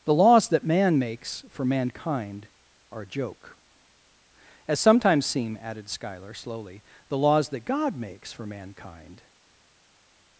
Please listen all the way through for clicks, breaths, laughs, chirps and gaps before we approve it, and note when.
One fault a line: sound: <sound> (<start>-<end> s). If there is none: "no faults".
no faults